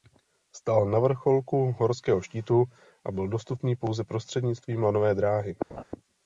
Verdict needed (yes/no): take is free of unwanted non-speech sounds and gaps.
no